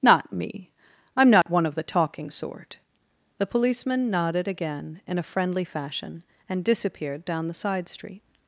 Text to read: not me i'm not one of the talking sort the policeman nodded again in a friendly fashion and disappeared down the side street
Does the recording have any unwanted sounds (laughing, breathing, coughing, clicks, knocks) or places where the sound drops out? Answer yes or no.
yes